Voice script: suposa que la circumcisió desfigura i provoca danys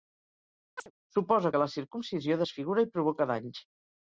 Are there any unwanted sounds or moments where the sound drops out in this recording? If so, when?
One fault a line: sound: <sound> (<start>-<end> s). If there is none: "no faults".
sound: chirp (0.8-0.9 s)